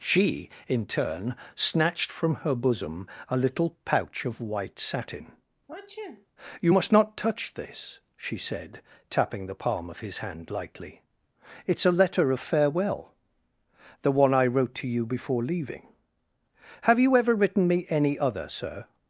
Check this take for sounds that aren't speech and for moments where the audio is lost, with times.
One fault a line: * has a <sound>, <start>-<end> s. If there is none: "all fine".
* has a sneeze, 5.7-6.3 s